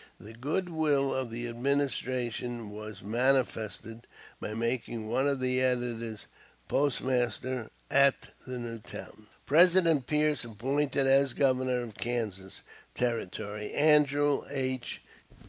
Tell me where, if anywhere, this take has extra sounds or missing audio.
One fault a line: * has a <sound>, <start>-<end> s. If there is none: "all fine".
all fine